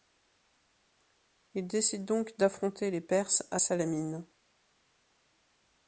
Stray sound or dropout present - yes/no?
no